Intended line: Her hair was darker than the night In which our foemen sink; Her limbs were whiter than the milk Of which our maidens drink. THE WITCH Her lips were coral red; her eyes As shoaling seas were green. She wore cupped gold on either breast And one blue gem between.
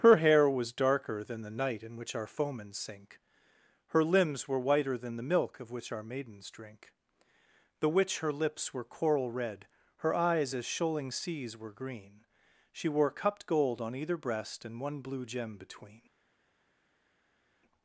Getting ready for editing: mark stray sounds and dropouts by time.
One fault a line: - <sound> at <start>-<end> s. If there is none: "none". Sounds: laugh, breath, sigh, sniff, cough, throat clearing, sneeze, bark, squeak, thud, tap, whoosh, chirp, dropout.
none